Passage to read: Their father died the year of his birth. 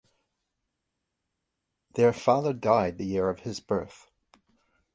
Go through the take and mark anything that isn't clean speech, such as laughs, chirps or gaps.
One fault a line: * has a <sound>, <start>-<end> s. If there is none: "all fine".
all fine